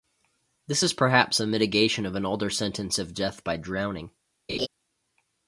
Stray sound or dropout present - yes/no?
yes